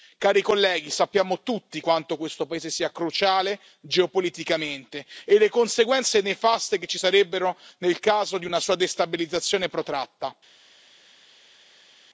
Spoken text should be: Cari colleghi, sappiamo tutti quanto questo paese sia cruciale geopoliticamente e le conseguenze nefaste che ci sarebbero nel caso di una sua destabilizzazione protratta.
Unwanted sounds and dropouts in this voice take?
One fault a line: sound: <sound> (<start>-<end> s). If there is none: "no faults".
no faults